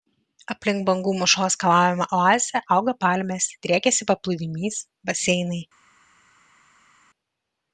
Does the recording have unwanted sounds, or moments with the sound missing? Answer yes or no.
no